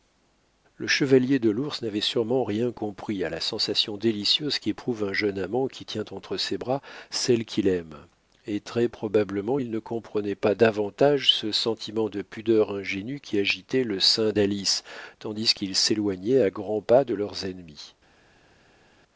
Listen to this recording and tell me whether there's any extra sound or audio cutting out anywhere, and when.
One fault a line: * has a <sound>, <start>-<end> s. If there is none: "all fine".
all fine